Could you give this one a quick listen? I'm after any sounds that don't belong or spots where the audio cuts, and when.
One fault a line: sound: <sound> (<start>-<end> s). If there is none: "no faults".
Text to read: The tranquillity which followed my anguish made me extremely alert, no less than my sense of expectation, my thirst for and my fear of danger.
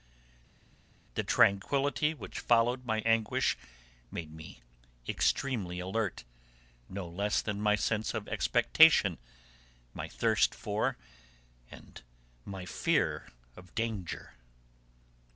no faults